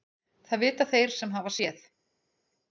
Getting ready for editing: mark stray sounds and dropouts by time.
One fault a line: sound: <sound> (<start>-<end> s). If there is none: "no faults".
no faults